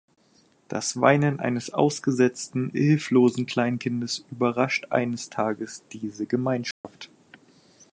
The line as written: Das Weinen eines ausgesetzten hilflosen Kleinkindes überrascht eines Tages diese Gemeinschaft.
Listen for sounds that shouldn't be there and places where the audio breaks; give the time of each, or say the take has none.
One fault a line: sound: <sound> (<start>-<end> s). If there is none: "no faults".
sound: dropout (6.7-6.8 s)